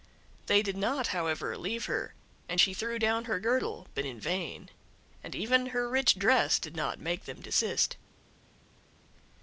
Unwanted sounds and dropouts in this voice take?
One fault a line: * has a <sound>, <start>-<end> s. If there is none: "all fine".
all fine